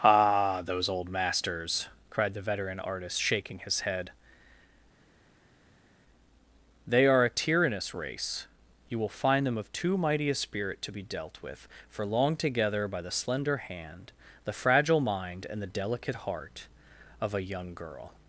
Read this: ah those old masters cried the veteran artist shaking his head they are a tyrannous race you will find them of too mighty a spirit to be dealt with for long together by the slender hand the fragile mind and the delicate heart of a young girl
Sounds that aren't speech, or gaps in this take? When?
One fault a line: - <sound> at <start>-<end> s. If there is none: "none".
none